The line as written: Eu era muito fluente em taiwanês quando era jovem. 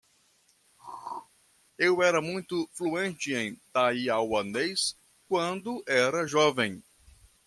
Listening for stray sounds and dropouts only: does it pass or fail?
fail